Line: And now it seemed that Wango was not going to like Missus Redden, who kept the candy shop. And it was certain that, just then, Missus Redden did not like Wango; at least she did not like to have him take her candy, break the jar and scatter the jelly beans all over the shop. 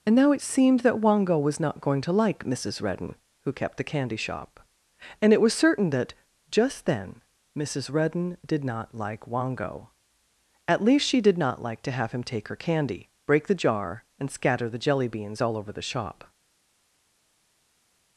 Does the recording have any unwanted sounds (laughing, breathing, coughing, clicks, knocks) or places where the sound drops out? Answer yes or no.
no